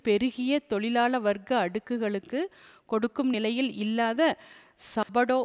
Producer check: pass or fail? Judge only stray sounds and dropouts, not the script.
fail